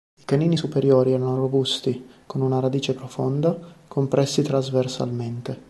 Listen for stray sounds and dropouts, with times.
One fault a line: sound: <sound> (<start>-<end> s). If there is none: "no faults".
no faults